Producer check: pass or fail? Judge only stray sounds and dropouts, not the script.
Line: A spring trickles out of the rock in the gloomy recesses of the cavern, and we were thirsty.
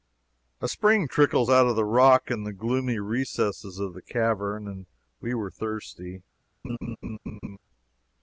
fail